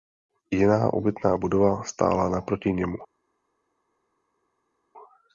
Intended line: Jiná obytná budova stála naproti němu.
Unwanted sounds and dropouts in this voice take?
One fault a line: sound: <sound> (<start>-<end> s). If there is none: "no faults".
no faults